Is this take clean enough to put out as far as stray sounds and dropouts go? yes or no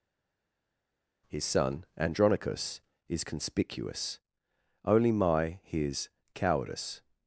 yes